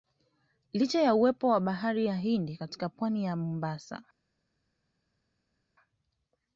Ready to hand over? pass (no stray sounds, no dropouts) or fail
pass